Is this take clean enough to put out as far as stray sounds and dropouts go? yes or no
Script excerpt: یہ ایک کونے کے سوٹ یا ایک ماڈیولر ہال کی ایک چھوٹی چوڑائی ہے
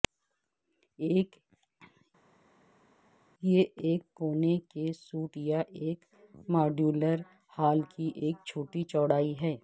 yes